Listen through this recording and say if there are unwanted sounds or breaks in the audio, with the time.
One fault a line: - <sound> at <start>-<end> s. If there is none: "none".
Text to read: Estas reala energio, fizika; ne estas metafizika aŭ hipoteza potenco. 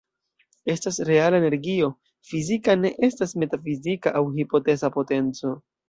none